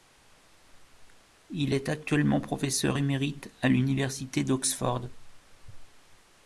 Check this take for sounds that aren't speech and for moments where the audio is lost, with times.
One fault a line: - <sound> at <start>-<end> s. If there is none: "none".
none